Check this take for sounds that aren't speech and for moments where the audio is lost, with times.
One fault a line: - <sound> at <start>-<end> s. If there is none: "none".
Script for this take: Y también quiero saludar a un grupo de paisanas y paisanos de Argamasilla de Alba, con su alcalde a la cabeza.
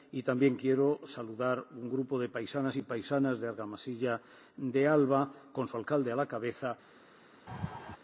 - laugh at 7.5-8.0 s